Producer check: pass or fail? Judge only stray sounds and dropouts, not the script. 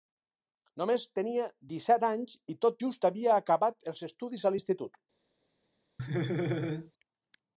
fail